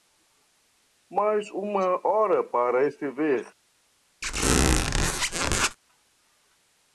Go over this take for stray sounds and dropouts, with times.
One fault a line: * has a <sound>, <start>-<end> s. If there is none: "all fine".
* has a squeak, 4.2-5.8 s